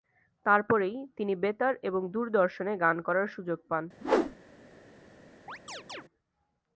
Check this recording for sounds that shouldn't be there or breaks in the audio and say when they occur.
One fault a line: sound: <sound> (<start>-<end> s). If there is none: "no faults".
sound: whoosh (4.0-4.4 s)
sound: chirp (5.5-6.0 s)